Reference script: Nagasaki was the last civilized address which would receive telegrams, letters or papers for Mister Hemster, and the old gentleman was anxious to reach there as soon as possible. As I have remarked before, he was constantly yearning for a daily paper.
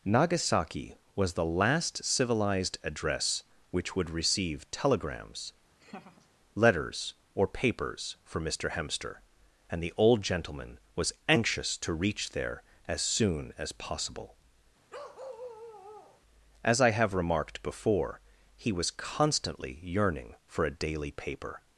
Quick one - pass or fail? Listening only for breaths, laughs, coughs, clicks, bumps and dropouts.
fail